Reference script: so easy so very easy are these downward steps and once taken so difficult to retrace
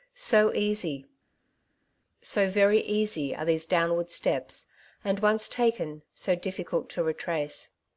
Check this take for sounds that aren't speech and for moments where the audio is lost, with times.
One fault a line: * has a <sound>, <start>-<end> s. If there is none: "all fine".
all fine